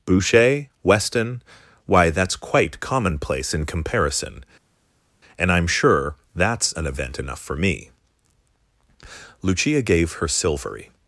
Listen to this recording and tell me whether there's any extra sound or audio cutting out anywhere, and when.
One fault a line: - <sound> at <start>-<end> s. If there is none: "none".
none